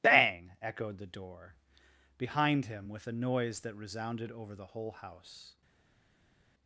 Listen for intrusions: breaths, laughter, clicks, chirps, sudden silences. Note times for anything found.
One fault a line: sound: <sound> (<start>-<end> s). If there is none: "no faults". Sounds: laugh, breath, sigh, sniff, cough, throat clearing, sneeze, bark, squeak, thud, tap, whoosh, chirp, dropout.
no faults